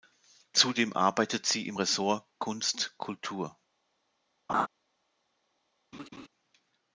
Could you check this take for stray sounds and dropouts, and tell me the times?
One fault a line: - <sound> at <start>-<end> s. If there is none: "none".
- laugh at 4.5-4.7 s
- laugh at 5.9-6.3 s